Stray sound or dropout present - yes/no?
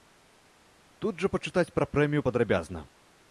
no